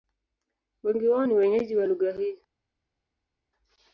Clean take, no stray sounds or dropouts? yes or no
yes